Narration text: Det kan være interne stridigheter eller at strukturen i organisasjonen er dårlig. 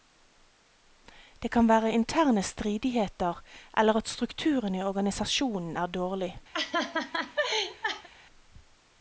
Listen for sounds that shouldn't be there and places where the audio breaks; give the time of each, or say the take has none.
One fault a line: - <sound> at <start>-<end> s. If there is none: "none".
- laugh at 6.5-8.1 s